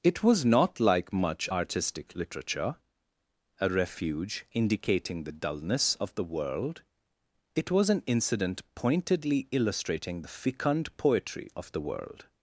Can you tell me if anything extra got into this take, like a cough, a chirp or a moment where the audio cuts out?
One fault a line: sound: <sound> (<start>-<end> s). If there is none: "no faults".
no faults